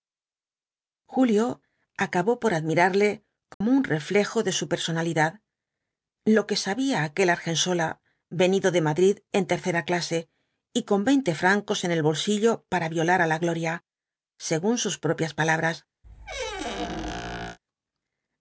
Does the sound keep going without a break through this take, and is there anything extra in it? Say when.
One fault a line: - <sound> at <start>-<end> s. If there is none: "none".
- dropout at 3.5-3.6 s
- squeak at 16.0-17.6 s